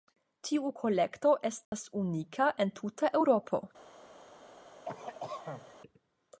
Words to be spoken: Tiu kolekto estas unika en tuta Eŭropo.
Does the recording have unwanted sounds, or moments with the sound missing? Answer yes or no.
yes